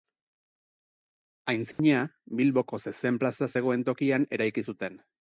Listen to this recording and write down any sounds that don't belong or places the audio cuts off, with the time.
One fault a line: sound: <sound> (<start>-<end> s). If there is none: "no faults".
sound: dropout (1.7-1.8 s)